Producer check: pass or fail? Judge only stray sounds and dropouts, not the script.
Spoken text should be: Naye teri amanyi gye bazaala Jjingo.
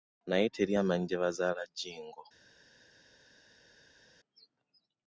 pass